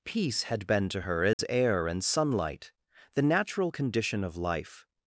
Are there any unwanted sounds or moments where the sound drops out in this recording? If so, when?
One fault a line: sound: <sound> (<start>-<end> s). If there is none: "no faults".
sound: dropout (1.3-1.4 s)